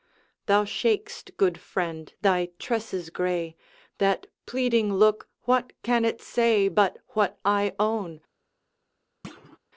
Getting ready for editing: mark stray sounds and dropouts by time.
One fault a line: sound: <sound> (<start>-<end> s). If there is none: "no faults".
sound: thud (9.2-9.6 s)